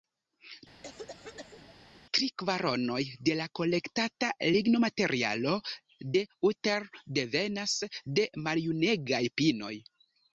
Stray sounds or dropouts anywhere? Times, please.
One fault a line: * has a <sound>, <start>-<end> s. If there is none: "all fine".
* has a cough, 0.8-1.7 s